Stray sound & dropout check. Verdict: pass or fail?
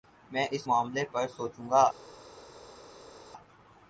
pass